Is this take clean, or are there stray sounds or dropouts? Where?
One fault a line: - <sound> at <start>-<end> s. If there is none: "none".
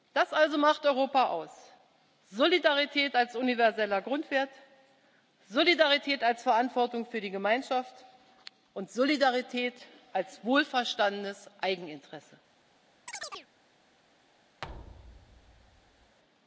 - chirp at 13.1-13.5 s
- thud at 14.6-16.2 s